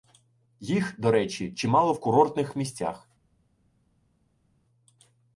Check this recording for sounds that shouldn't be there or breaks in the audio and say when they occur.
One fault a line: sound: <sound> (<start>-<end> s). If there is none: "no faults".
no faults